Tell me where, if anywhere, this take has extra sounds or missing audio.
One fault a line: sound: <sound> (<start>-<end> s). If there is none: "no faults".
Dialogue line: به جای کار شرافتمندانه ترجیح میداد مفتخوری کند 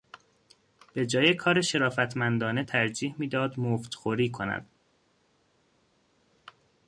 no faults